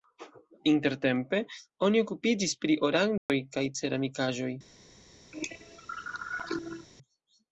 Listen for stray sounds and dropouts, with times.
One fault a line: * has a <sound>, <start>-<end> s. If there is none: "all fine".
* has a dropout, 3.2-3.3 s
* has a cough, 5.3-6.9 s